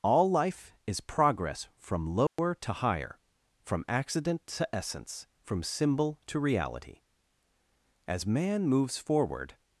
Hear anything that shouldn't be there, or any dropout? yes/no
yes